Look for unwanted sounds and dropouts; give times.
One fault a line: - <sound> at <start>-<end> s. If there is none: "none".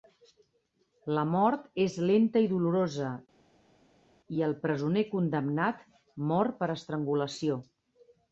none